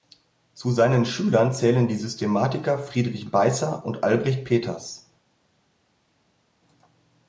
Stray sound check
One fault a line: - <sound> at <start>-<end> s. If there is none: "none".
none